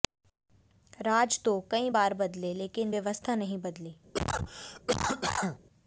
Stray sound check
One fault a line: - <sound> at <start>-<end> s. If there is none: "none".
- cough at 4.1-5.6 s